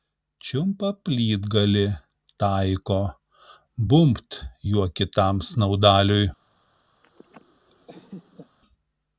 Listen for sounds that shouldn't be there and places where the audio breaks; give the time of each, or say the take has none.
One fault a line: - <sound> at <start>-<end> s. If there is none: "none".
- laugh at 7.0-8.6 s